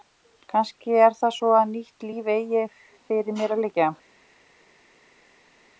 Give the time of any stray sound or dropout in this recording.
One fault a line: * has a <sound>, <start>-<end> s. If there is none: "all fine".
all fine